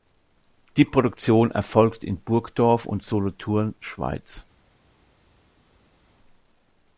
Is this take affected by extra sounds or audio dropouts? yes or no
no